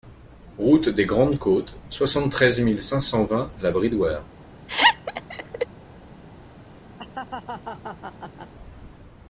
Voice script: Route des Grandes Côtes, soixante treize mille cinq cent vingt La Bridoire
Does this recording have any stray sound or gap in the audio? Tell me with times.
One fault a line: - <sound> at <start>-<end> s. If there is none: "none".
- laugh at 4.7-5.7 s
- laugh at 7.0-8.5 s